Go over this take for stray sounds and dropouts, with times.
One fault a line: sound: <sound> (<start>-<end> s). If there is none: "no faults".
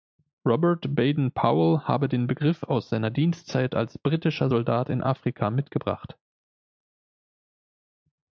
no faults